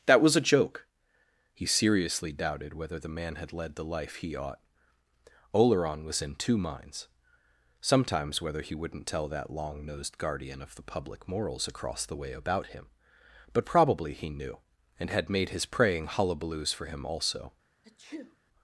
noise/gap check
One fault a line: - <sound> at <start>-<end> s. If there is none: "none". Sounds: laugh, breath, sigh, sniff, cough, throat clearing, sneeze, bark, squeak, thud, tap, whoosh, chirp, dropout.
- sneeze at 17.8-18.4 s